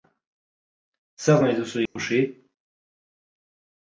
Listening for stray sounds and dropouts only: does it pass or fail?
fail